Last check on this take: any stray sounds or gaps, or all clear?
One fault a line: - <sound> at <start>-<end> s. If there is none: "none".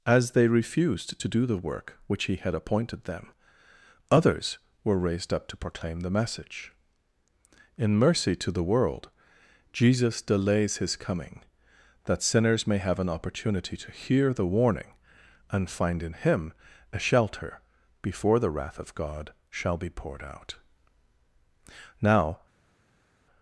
none